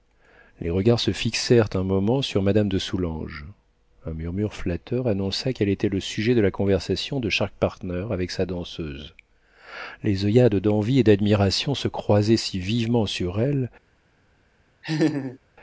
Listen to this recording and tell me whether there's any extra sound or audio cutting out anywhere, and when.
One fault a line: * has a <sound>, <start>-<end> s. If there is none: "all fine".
* has a laugh, 14.8-15.4 s